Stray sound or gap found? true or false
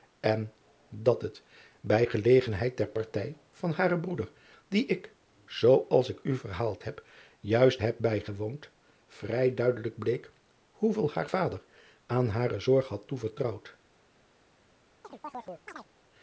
true